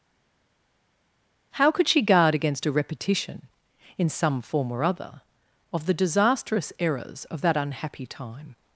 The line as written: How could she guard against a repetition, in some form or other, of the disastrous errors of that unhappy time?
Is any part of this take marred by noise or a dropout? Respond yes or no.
no